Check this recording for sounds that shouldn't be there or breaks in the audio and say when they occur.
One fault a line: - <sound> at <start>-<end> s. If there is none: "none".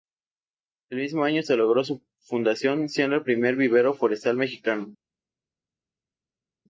none